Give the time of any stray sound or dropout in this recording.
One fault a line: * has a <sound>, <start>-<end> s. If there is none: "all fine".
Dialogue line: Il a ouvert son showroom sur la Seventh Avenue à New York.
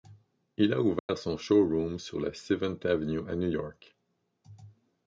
* has a dropout, 1.0-1.1 s